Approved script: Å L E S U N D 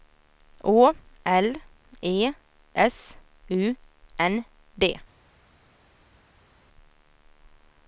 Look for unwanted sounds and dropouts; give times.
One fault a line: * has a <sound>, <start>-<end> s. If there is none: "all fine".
all fine